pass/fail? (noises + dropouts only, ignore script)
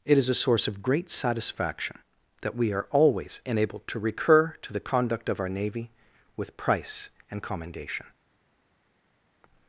pass